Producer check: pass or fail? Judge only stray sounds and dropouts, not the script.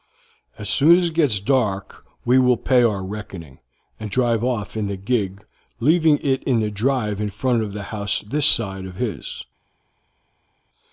pass